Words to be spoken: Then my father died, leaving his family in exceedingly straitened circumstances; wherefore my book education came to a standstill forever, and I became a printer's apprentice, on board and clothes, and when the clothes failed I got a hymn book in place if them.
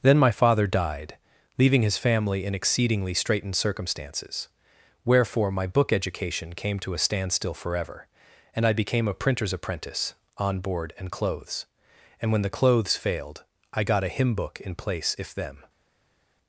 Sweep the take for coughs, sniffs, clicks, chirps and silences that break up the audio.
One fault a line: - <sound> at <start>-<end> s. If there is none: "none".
none